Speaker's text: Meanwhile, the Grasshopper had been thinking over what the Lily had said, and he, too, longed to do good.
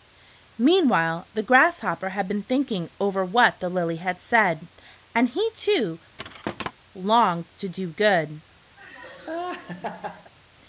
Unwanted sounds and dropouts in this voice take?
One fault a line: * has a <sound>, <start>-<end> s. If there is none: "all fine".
* has a thud, 6.2-6.7 s
* has a laugh, 8.8-10.3 s